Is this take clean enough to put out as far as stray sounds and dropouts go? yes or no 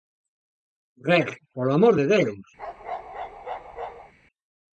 no